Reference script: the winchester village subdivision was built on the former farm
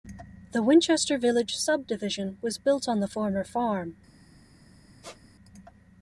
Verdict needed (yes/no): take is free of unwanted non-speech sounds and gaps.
no